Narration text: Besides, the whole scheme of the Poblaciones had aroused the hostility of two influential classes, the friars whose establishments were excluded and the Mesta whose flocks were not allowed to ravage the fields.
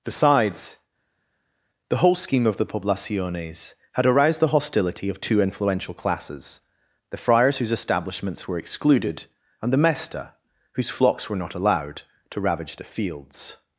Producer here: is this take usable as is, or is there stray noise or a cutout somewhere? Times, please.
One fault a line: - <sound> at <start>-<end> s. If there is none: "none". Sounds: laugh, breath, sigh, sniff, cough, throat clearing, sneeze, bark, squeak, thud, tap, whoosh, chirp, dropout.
none